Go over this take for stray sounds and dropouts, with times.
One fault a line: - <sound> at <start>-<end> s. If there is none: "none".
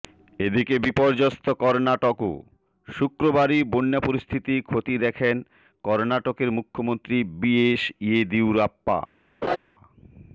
- laugh at 9.4-9.6 s